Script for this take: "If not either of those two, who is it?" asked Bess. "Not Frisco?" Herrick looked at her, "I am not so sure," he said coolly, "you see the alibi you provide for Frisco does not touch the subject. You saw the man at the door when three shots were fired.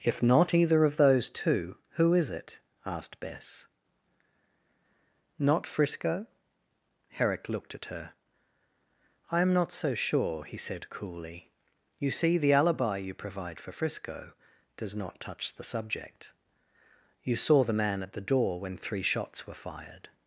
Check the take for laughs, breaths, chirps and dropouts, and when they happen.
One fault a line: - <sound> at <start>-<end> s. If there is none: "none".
none